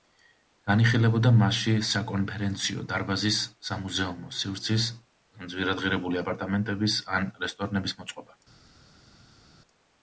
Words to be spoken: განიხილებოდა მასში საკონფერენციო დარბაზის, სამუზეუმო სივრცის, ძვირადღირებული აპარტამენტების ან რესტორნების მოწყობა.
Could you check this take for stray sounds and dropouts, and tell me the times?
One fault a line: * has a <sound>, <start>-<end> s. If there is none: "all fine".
all fine